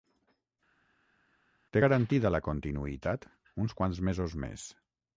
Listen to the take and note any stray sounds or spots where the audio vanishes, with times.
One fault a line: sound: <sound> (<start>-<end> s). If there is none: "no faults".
no faults